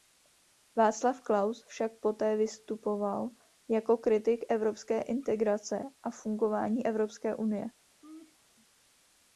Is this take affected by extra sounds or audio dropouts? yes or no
yes